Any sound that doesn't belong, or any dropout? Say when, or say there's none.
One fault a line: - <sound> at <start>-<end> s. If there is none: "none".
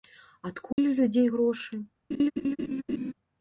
- dropout at 0.7-0.8 s
- laugh at 2.1-3.1 s